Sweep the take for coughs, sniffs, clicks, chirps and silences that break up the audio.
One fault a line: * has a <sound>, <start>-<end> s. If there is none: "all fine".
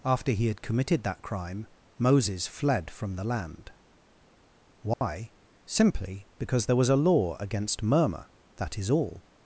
* has a dropout, 4.9-5.0 s